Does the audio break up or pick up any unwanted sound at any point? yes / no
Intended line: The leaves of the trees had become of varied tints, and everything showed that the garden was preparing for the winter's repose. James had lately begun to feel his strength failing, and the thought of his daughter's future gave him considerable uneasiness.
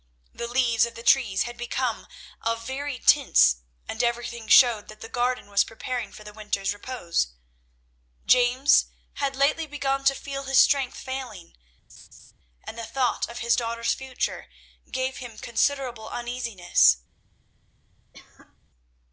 yes